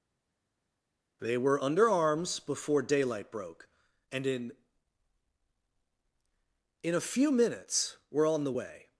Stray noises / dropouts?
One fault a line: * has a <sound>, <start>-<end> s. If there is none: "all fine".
all fine